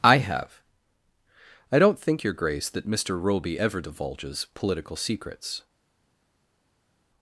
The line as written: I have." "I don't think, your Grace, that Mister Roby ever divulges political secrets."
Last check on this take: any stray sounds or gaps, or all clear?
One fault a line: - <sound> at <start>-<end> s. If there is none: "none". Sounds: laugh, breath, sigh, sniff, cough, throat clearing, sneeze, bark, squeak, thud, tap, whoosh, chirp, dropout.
none